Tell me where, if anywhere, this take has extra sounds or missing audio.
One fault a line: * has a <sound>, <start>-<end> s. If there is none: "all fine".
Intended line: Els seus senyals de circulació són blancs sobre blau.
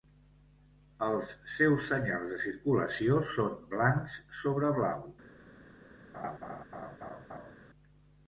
* has a laugh, 6.1-7.6 s